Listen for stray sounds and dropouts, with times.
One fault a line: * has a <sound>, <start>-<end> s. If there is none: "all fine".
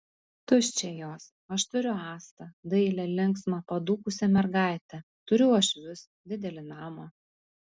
all fine